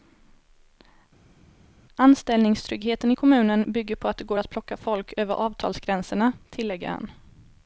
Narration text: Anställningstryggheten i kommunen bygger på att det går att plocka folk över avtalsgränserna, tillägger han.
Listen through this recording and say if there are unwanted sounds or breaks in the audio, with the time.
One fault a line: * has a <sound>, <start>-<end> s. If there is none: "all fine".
all fine